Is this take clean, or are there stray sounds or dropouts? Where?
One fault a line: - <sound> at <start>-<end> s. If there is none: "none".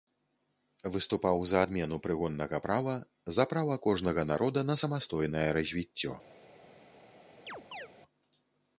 - chirp at 7.5-7.9 s